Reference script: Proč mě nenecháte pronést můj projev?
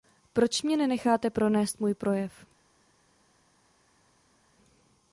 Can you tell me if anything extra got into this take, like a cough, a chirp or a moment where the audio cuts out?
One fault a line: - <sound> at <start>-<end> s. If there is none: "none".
none